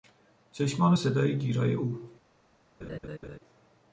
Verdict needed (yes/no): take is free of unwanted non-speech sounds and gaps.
no